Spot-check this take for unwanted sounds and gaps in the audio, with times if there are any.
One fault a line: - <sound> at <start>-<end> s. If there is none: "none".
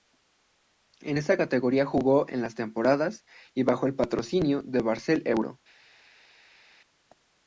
none